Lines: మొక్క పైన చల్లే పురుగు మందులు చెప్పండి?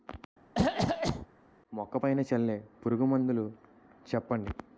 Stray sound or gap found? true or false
true